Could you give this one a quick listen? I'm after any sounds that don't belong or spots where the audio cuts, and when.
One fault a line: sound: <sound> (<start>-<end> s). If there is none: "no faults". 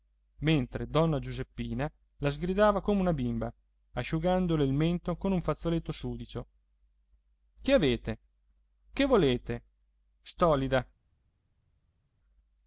no faults